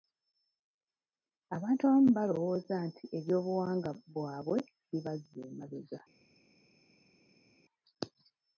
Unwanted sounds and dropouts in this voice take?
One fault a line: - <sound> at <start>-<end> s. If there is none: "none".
none